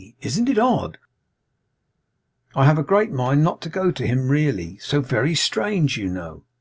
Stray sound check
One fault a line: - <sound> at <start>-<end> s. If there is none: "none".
none